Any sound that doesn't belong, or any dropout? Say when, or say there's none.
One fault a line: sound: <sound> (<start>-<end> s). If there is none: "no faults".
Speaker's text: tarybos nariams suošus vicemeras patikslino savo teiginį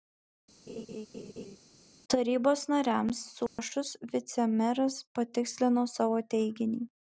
sound: laugh (0.7-1.6 s)
sound: dropout (3.5-3.6 s)